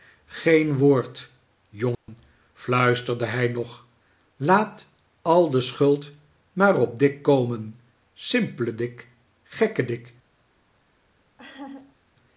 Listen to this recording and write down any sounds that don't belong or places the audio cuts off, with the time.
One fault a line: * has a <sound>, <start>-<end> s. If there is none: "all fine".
* has a dropout, 1.9-2.1 s
* has a laugh, 11.4-12.0 s